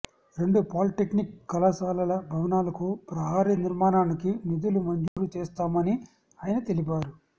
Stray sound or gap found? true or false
true